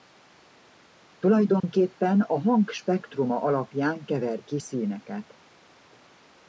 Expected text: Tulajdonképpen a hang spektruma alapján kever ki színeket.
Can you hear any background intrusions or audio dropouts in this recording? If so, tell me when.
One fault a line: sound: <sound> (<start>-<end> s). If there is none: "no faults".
sound: dropout (1.6-1.6 s)